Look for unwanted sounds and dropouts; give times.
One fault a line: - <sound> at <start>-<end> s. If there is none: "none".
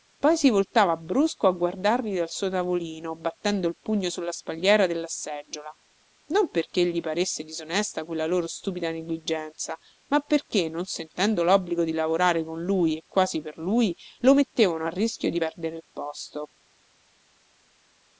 none